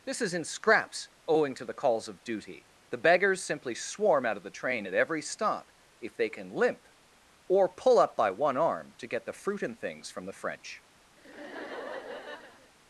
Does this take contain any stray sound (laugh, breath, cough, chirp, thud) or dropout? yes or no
yes